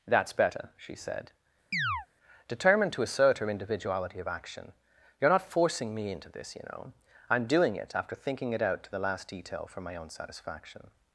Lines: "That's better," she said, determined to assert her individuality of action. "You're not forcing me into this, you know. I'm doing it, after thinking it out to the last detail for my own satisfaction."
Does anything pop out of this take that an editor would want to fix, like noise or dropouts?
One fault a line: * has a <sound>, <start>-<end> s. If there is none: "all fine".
* has a chirp, 1.7-2.1 s